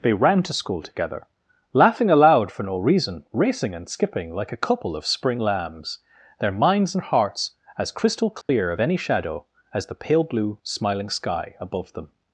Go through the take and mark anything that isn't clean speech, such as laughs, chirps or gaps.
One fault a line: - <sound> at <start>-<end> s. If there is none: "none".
- dropout at 8.4-8.5 s